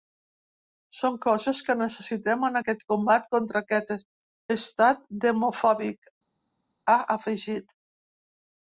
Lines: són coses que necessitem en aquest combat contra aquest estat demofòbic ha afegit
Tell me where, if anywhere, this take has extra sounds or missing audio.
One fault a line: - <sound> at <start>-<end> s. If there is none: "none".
none